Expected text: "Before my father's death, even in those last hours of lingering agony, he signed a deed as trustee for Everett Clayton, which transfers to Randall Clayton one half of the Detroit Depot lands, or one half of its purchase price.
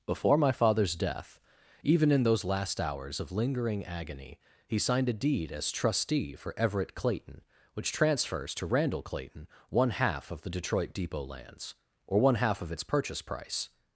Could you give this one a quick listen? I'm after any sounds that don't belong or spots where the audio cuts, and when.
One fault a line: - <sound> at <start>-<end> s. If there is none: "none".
none